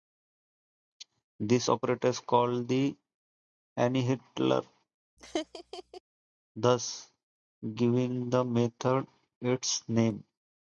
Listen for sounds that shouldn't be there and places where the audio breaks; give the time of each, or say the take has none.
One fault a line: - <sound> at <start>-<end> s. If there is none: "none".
- laugh at 5.2-6.0 s